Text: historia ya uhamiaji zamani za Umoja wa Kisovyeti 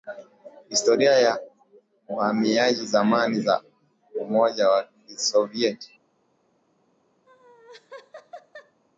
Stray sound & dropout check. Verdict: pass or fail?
fail